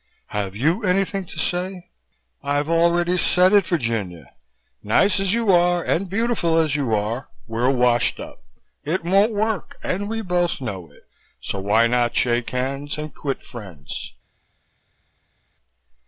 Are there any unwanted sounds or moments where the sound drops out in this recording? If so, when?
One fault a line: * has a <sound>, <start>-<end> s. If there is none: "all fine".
all fine